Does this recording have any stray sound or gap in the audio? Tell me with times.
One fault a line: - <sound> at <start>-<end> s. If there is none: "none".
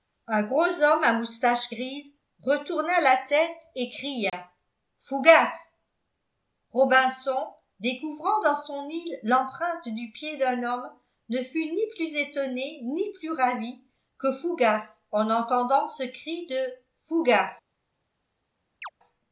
- dropout at 4.3-4.3 s
- chirp at 18.8-18.9 s